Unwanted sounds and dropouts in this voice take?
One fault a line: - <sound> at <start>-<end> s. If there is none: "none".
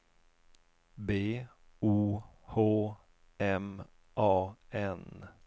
none